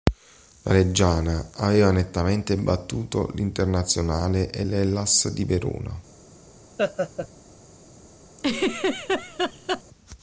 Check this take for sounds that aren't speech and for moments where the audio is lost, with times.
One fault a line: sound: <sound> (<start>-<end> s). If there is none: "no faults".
sound: laugh (6.8-7.3 s)
sound: laugh (8.4-9.8 s)